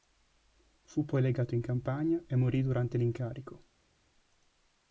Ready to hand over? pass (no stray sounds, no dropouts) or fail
pass